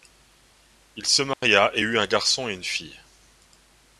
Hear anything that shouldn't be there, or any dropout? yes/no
yes